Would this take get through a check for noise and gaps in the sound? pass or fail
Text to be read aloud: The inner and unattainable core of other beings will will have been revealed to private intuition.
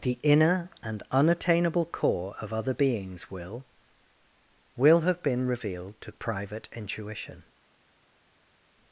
pass